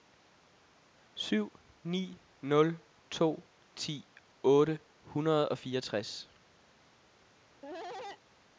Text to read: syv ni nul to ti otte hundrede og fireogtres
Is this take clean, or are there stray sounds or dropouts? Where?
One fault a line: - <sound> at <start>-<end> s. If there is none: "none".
- cough at 7.6-8.2 s